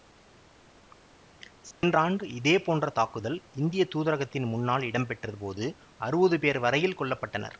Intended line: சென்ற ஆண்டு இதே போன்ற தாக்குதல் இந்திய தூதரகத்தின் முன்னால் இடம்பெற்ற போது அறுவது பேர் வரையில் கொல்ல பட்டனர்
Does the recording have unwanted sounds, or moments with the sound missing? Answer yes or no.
yes